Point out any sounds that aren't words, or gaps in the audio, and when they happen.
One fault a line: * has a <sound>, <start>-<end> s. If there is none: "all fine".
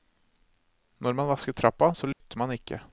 * has a dropout, 2.1-2.2 s